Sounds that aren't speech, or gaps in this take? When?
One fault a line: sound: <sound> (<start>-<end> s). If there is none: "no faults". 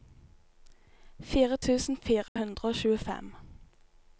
sound: dropout (2.3-2.4 s)